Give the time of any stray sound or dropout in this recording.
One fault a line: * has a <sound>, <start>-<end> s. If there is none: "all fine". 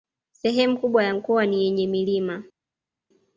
all fine